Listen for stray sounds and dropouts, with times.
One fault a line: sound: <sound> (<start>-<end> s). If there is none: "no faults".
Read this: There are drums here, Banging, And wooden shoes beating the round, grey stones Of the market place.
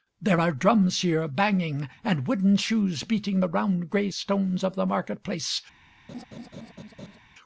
sound: laugh (6.1-7.2 s)